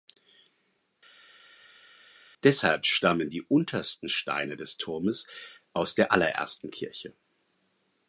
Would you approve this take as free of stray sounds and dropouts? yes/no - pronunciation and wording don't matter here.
yes